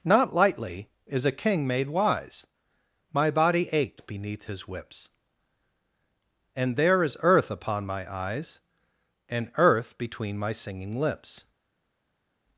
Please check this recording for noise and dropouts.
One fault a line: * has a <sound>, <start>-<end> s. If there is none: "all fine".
all fine